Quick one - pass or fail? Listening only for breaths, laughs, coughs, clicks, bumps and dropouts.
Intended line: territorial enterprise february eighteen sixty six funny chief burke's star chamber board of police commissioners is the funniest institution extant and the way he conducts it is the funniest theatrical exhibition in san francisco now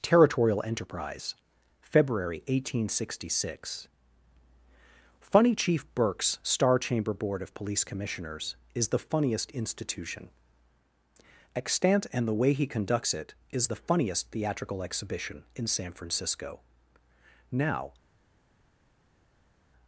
pass